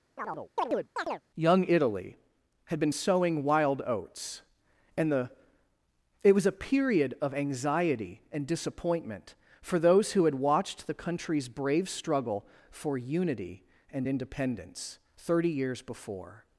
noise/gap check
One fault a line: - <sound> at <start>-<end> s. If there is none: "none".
- chirp at 0.2-1.2 s